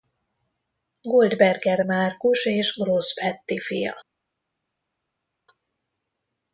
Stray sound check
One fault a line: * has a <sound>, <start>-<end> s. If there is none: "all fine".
all fine